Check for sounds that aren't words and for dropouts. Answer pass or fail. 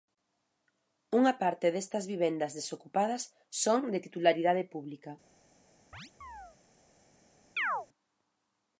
fail